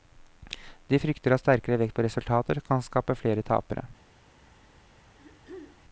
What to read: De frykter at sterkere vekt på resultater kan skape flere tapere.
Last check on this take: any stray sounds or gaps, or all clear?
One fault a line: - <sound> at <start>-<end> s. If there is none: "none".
- throat clearing at 5.0-5.8 s